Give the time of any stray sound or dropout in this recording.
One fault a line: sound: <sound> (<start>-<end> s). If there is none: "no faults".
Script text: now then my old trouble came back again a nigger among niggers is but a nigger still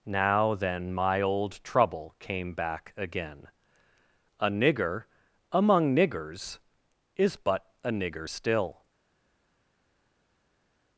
no faults